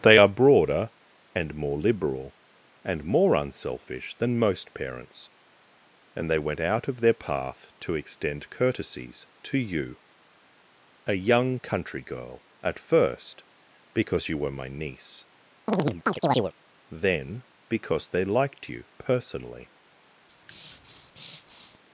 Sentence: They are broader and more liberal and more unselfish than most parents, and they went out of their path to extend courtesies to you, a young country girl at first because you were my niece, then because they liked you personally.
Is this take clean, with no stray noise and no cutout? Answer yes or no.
no